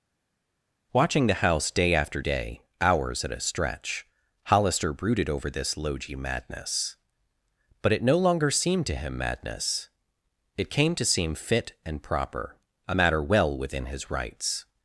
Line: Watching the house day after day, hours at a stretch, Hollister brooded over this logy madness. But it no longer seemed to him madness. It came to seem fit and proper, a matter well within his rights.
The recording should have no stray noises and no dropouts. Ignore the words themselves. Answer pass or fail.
pass